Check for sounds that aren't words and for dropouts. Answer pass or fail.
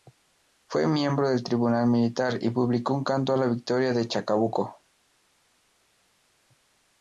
pass